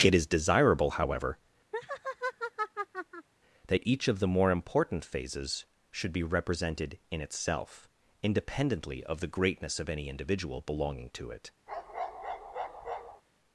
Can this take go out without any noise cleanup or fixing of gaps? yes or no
no